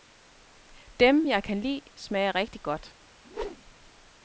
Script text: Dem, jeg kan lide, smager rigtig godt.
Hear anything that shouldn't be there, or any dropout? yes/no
yes